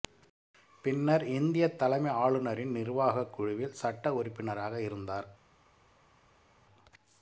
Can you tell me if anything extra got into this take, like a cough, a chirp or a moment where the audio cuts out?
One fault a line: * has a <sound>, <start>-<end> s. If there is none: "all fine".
all fine